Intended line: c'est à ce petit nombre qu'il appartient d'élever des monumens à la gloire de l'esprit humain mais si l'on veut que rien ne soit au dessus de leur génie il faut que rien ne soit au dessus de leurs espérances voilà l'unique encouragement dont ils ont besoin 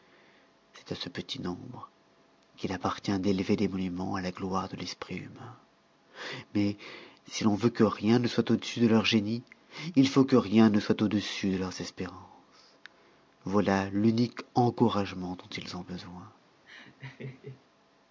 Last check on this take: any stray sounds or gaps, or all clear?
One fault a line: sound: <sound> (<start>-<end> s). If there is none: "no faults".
sound: laugh (16.7-17.6 s)